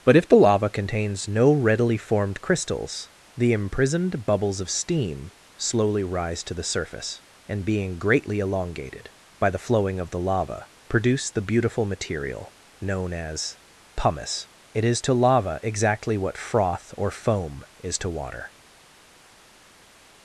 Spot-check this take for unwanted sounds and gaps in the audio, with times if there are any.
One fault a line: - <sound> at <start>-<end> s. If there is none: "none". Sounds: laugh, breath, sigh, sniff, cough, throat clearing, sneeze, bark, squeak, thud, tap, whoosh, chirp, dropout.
none